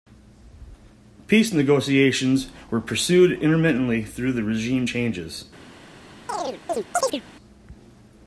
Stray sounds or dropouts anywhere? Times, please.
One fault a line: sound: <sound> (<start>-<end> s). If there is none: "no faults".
sound: chirp (6.3-7.2 s)